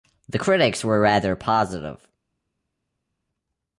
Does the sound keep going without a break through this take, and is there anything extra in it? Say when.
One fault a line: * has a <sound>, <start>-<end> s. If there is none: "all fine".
all fine